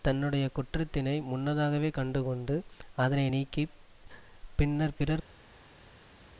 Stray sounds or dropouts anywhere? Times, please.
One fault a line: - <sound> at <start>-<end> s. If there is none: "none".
none